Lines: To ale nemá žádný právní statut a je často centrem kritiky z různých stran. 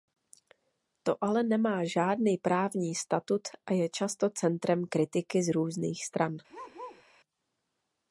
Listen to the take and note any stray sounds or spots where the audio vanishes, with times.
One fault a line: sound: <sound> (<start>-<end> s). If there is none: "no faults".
sound: bark (6.5-7.0 s)